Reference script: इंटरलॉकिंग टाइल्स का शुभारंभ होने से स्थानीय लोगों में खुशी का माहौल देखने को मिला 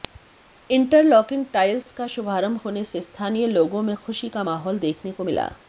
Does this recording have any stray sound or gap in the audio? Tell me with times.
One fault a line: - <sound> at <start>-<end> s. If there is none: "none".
- dropout at 1.8-1.9 s